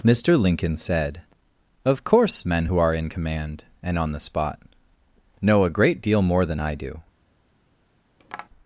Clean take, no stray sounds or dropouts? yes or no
no